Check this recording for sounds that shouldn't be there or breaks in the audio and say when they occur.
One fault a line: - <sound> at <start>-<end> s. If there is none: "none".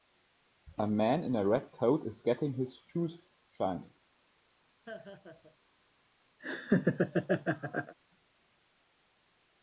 - laugh at 4.9-5.6 s
- laugh at 6.4-7.9 s